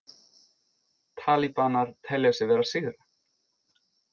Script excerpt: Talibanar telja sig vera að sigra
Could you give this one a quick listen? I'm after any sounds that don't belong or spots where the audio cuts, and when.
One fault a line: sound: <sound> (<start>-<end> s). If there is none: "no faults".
no faults